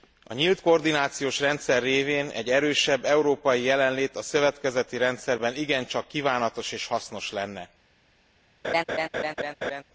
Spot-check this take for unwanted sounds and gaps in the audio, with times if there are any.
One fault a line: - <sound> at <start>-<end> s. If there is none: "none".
- laugh at 8.6-9.8 s